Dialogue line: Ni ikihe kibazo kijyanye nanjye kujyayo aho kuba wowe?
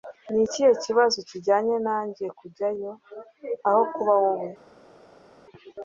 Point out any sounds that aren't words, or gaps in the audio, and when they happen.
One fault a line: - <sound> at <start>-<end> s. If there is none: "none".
none